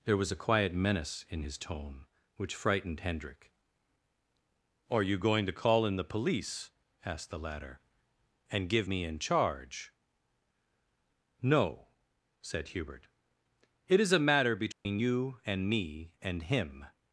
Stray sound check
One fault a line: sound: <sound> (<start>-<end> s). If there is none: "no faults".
sound: dropout (14.7-14.9 s)